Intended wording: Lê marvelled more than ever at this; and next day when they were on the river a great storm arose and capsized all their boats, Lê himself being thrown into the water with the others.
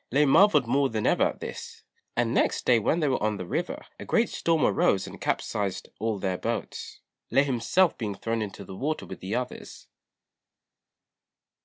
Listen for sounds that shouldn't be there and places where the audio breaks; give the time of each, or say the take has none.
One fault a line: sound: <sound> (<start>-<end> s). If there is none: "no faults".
no faults